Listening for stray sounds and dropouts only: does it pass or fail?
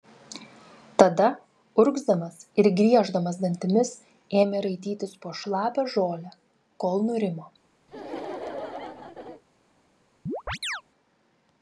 fail